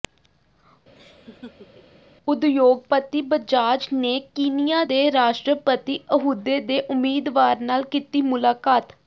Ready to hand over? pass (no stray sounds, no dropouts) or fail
fail